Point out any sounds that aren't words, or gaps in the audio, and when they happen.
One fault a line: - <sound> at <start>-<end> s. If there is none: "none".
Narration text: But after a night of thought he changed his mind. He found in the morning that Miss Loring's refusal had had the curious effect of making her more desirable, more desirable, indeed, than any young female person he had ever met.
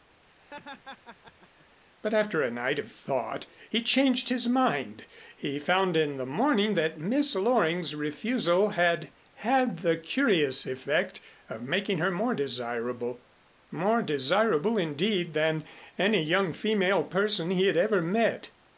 - laugh at 0.4-1.7 s